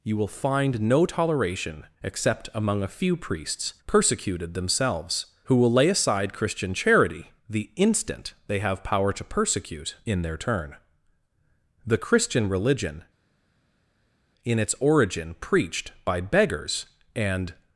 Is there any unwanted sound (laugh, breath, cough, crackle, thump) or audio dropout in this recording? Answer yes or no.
no